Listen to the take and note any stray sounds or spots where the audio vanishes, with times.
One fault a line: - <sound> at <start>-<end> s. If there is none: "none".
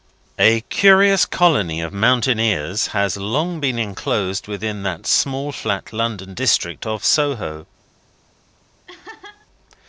- laugh at 8.9-9.5 s